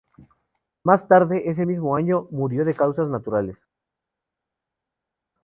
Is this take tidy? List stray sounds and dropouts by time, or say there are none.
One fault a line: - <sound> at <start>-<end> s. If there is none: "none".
none